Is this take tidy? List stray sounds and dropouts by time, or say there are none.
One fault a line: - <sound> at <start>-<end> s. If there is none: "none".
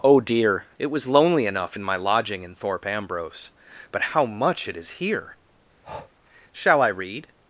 - breath at 5.8-6.1 s